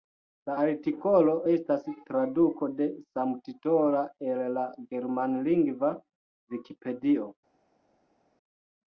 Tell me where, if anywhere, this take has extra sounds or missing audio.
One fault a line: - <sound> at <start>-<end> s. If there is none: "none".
none